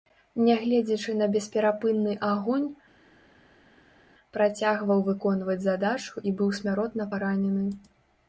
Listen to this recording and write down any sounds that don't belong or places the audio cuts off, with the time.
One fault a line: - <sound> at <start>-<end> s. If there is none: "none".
none